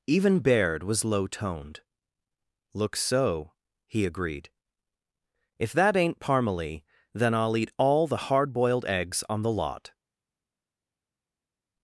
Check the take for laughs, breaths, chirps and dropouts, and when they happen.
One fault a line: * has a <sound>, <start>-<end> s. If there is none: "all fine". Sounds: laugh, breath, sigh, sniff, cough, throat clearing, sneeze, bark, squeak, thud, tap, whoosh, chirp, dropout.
all fine